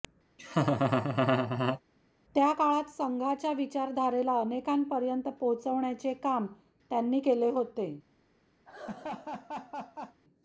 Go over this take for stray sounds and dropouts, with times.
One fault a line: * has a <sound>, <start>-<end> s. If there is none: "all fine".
* has a laugh, 0.4-1.8 s
* has a laugh, 8.6-10.2 s